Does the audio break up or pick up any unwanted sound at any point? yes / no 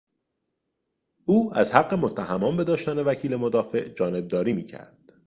no